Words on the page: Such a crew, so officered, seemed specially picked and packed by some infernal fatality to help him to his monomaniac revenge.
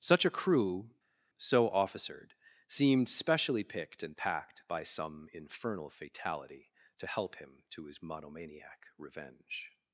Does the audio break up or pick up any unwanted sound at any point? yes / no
no